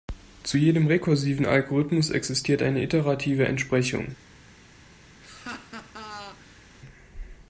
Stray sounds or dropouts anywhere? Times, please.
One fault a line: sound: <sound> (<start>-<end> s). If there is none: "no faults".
sound: laugh (5.2-6.6 s)